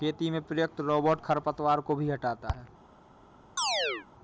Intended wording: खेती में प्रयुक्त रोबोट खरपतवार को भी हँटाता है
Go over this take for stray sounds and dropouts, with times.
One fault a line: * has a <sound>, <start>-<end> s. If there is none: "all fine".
* has a chirp, 3.6-4.1 s